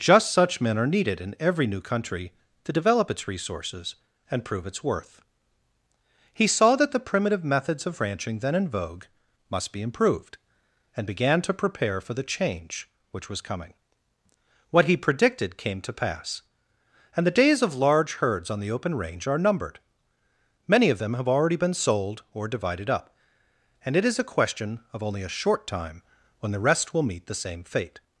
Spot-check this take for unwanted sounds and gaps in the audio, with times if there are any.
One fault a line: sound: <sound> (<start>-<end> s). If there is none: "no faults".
no faults